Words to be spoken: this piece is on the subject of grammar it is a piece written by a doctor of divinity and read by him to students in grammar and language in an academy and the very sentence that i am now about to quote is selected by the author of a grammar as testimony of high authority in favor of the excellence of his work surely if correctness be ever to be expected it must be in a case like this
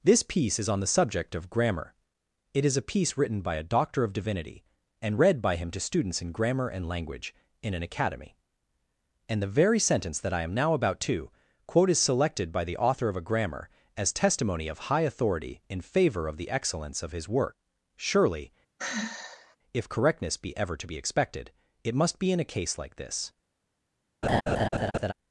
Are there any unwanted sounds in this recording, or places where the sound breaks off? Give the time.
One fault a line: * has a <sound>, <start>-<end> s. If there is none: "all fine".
* has a sigh, 18.8-19.6 s
* has a laugh, 24.2-25.1 s